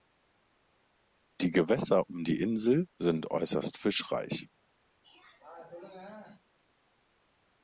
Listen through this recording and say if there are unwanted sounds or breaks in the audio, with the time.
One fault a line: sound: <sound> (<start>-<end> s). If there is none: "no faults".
sound: throat clearing (5.0-6.4 s)